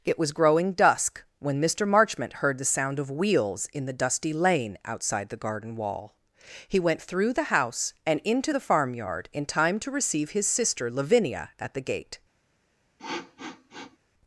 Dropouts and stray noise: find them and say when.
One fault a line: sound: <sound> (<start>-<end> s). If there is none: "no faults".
sound: sniff (13.0-14.0 s)